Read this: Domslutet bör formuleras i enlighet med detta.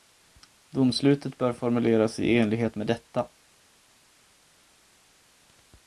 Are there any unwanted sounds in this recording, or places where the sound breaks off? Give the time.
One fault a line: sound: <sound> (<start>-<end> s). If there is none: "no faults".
no faults